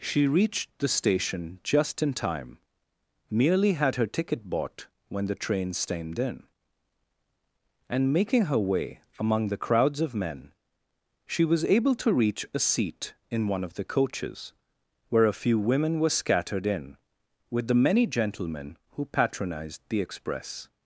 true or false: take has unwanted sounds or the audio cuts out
false